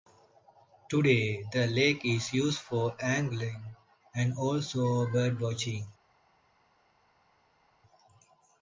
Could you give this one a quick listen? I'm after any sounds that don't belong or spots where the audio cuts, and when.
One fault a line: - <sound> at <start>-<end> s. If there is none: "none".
none